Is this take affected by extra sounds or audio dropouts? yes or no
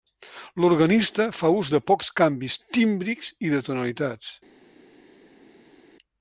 no